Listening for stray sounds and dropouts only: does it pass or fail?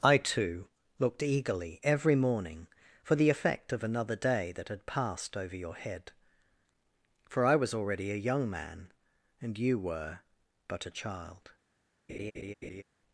fail